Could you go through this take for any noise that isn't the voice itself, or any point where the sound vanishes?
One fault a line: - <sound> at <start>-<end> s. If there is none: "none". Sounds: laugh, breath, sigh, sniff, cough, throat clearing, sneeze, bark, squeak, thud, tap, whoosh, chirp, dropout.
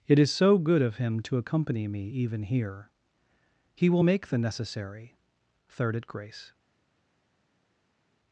none